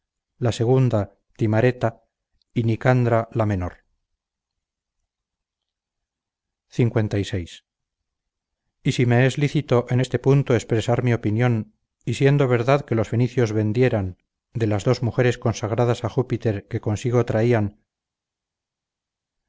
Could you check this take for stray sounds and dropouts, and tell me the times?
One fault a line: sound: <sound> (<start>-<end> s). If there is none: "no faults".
no faults